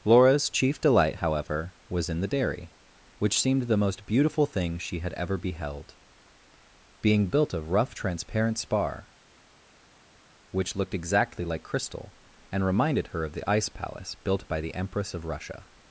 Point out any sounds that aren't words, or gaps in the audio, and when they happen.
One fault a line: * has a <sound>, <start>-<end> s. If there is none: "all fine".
all fine